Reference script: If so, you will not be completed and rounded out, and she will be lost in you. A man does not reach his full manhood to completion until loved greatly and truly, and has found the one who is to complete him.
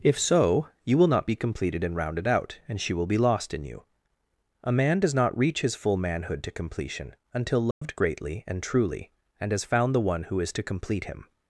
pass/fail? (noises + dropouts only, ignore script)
fail